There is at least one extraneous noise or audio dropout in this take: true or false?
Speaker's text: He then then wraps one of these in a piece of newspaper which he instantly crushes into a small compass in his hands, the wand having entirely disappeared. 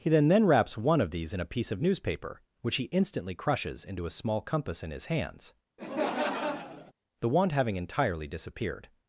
true